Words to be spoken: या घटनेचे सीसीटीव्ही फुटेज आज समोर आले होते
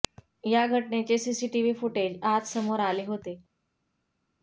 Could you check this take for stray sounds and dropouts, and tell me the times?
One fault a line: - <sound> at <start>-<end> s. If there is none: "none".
none